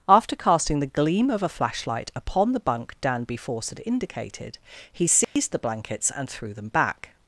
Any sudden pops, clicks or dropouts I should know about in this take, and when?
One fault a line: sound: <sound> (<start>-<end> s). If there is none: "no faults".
sound: dropout (5.2-5.4 s)